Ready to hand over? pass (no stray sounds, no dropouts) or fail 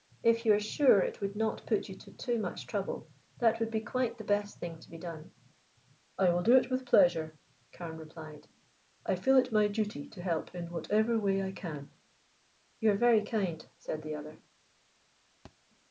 fail